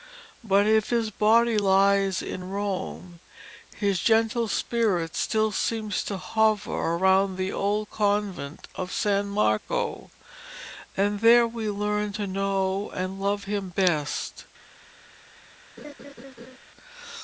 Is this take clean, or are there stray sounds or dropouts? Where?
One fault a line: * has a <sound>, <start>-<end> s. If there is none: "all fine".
* has a laugh, 15.8-16.6 s